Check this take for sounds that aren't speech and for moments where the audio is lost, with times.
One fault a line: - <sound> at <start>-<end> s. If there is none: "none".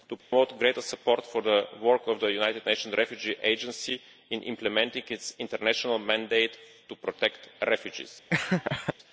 - dropout at 0.2-0.3 s
- laugh at 8.3-8.9 s